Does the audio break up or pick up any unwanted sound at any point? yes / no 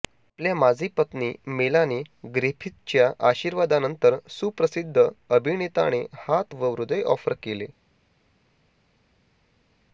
no